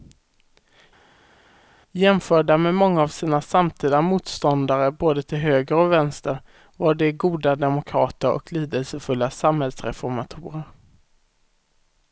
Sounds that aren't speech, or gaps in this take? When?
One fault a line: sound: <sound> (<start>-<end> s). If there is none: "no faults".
no faults